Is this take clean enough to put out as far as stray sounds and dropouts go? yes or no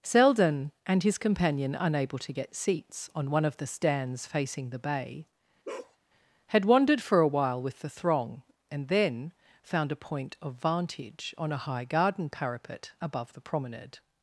no